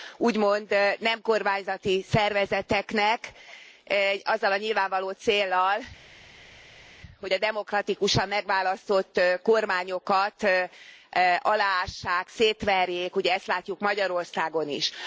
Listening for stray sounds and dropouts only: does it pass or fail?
pass